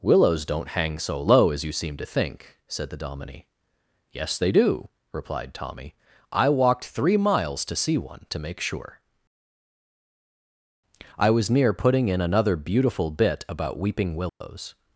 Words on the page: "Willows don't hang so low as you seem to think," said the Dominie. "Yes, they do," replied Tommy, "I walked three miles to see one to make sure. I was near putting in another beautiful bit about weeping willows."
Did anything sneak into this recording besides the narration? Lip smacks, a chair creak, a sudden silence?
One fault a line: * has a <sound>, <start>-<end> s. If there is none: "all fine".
* has a dropout, 14.3-14.4 s